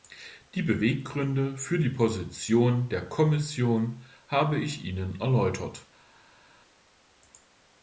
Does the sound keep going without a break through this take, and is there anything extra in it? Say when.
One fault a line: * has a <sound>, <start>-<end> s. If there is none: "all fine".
all fine